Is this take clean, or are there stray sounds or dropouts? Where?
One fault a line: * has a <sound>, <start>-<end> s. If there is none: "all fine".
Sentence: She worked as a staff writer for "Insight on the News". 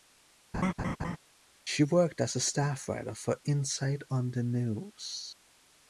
* has a laugh, 0.5-1.2 s